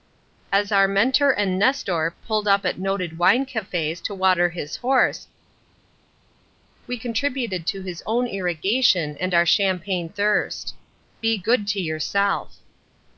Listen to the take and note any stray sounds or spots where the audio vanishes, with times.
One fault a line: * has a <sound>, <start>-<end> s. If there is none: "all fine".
all fine